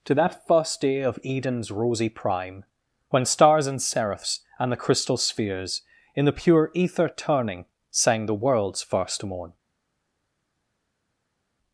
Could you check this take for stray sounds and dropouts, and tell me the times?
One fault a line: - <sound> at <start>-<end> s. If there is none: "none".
none